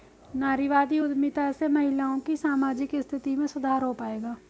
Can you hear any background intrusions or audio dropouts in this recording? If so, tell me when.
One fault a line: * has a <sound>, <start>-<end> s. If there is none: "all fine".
all fine